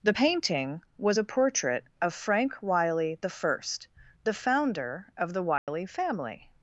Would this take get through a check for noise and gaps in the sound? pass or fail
fail